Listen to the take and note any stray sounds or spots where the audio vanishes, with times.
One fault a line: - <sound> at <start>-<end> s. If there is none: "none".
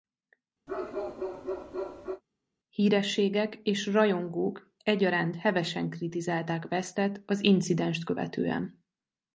- bark at 0.7-2.2 s